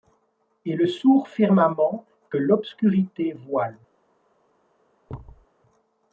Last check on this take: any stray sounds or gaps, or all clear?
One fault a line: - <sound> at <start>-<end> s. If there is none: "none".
- thud at 5.1-5.5 s